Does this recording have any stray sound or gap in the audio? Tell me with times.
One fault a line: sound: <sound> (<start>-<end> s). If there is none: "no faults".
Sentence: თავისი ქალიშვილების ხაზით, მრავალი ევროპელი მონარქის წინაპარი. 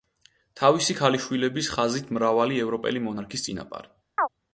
sound: chirp (4.2-4.3 s)